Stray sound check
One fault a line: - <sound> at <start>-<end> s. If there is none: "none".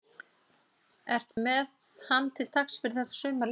- dropout at 1.3-1.4 s